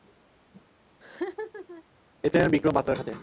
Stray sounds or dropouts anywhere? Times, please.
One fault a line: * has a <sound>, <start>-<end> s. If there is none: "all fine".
* has a laugh, 1.0-1.8 s